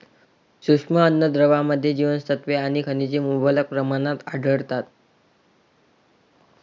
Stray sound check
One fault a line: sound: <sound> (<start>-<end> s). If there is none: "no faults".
no faults